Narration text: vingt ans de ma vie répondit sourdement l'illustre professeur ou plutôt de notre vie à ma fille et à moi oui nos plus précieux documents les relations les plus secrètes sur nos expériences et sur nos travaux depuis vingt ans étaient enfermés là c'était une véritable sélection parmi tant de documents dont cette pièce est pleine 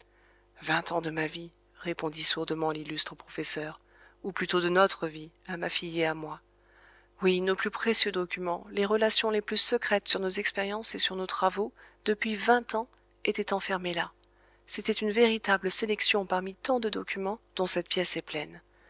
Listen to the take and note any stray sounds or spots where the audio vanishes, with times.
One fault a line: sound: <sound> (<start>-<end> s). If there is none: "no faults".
no faults